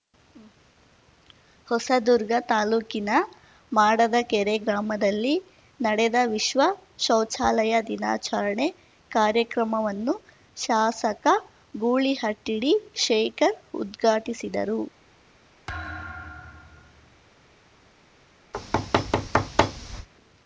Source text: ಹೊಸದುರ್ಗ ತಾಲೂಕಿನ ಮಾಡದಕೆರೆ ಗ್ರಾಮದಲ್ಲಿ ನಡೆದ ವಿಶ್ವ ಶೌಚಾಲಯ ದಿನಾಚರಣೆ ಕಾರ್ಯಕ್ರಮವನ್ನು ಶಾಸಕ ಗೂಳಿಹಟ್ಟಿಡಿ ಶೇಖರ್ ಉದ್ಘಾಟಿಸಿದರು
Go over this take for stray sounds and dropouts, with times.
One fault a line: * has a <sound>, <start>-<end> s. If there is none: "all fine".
* has a thud, 15.7-17.2 s
* has a thud, 18.5-20.1 s